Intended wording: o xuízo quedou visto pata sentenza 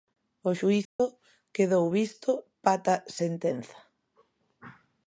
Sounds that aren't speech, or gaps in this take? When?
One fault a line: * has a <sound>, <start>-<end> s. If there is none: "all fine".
* has a dropout, 0.8-1.0 s